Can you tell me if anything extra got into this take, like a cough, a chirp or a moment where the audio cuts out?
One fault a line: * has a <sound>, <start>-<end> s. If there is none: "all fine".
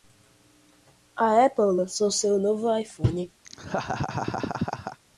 * has a laugh, 3.4-5.0 s